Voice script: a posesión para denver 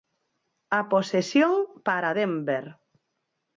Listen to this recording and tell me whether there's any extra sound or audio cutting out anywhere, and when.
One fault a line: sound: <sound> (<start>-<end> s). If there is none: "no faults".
no faults